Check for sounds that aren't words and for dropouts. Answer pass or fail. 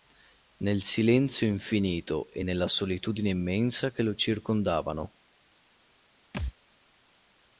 fail